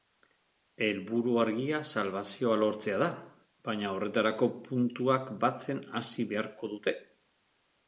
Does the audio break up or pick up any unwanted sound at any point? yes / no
no